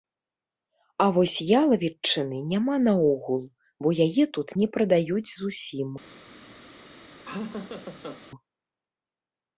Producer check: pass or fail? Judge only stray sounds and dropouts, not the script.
fail